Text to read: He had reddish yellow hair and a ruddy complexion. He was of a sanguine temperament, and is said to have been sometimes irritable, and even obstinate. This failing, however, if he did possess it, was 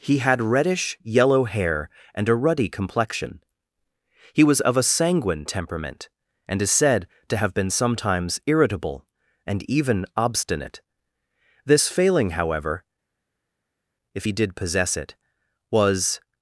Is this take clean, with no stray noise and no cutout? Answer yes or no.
yes